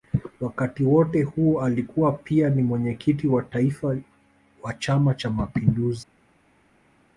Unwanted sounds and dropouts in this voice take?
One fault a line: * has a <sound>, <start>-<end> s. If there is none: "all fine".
all fine